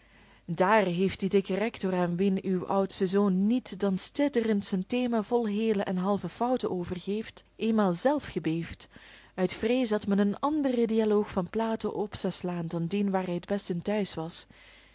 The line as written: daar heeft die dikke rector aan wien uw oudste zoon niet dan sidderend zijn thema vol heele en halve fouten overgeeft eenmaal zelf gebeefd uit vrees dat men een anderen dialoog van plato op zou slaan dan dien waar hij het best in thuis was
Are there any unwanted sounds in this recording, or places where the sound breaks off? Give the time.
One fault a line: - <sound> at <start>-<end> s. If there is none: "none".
none